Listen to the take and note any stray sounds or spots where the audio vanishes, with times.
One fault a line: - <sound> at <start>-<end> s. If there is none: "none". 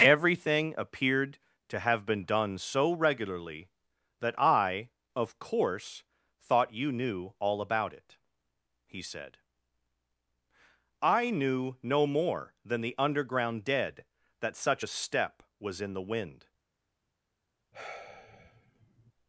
- sigh at 17.7-19.1 s